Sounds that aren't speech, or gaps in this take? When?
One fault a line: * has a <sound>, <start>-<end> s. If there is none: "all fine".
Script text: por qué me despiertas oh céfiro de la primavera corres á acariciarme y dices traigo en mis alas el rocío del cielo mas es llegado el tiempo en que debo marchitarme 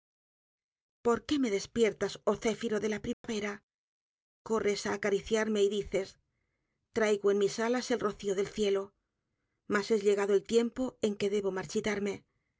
* has a dropout, 3.1-3.2 s